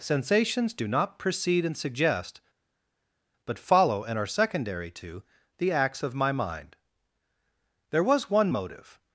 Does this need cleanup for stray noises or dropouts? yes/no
no